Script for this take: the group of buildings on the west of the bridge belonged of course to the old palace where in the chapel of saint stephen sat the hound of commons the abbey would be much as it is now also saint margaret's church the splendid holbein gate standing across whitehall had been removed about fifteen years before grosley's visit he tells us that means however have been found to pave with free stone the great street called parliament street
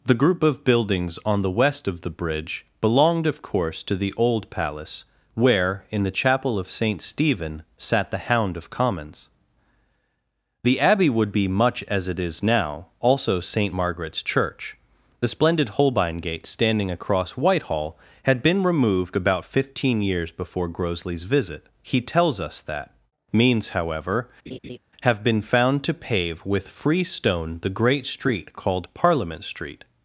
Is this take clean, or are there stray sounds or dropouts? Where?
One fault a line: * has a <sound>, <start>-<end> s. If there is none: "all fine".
* has a laugh, 24.5-24.8 s